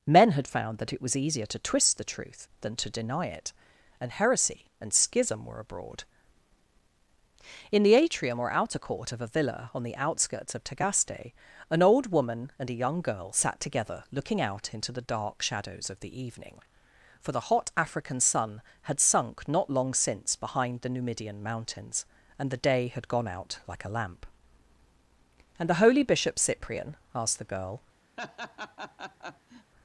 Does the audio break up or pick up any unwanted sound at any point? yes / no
yes